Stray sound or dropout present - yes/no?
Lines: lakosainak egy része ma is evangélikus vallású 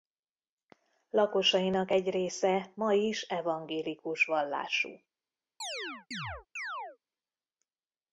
yes